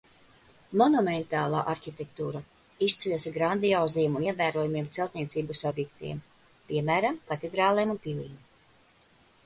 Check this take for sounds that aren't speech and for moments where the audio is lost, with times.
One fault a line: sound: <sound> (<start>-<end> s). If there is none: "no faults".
no faults